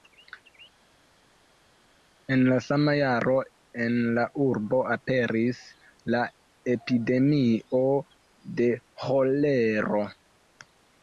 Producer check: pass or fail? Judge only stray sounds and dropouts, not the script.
pass